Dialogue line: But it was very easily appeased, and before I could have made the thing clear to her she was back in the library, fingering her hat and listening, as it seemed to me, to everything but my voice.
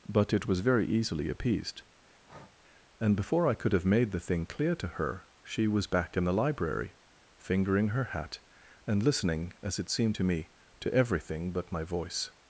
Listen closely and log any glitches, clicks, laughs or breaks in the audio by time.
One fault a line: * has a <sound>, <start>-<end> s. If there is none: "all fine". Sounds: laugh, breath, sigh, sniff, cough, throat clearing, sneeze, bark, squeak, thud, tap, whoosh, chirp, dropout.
* has a breath, 2.2-2.6 s